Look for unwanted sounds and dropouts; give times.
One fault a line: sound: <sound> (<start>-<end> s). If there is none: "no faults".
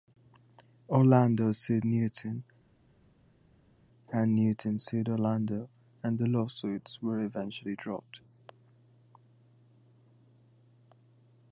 no faults